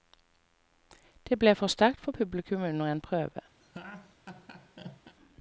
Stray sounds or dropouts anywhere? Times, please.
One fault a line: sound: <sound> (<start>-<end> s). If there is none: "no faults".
sound: laugh (3.6-5.2 s)